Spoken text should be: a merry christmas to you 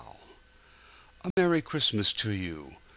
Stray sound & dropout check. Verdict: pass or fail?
fail